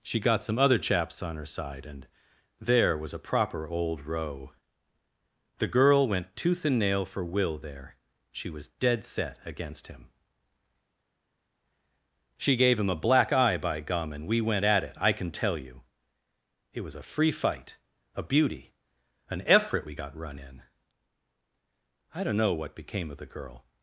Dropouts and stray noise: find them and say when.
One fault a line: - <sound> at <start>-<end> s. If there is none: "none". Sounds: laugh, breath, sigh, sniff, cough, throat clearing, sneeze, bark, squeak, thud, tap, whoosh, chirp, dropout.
none